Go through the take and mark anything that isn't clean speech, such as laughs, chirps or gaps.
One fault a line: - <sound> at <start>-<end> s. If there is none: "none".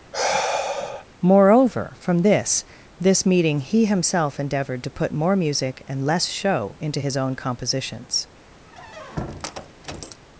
- sigh at 0.1-1.1 s
- squeak at 8.6-10.2 s